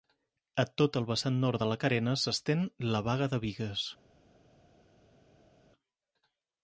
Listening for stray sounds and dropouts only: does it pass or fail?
pass